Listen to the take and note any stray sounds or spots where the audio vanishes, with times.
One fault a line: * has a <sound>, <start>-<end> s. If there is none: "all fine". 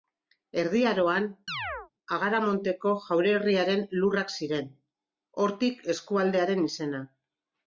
* has a chirp, 1.5-1.9 s